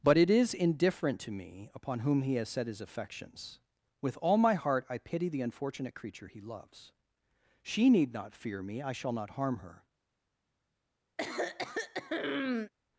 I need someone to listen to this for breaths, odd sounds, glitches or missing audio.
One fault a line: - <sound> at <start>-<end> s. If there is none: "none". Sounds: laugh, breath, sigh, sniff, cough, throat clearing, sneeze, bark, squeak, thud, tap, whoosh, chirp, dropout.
- throat clearing at 11.2-12.7 s